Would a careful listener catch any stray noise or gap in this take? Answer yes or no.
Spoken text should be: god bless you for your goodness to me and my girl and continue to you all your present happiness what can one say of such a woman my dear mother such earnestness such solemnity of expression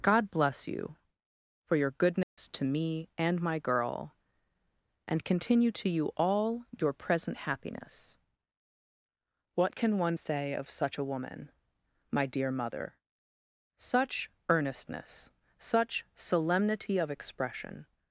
yes